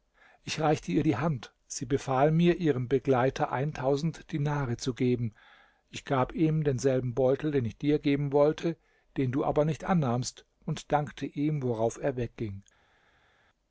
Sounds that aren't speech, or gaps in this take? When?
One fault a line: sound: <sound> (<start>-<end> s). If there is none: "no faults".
no faults